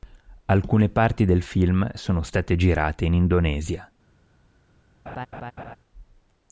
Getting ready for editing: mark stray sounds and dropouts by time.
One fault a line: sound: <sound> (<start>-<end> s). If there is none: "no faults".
sound: laugh (5.1-5.8 s)